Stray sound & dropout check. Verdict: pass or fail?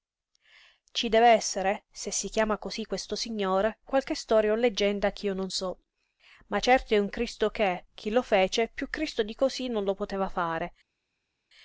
pass